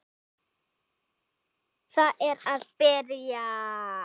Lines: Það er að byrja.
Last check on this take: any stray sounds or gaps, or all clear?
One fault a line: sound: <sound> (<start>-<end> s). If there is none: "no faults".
no faults